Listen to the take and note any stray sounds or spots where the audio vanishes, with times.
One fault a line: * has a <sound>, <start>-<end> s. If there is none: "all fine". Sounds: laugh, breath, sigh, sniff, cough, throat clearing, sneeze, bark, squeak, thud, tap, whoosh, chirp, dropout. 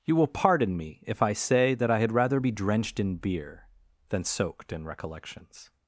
all fine